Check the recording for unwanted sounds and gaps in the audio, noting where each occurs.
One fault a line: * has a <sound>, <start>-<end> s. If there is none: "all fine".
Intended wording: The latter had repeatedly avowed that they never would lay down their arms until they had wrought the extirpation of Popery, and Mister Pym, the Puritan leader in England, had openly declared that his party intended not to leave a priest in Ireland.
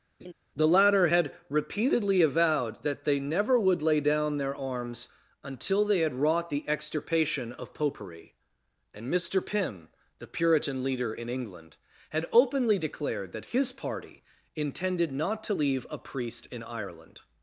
* has a laugh, 0.2-0.3 s